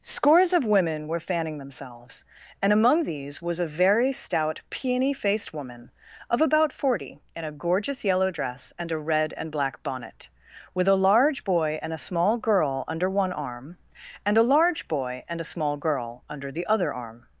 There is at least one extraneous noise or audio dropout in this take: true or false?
false